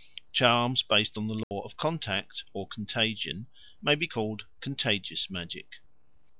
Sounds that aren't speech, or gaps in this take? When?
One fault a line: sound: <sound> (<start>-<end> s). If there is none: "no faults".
sound: dropout (1.4-1.5 s)